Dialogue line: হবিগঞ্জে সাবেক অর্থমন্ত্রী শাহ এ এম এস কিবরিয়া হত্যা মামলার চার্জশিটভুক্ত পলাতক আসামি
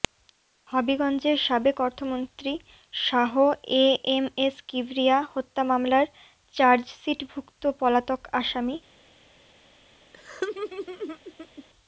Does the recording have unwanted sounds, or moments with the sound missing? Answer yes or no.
yes